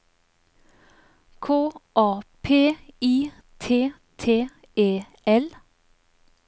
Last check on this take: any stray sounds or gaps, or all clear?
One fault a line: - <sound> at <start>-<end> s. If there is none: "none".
none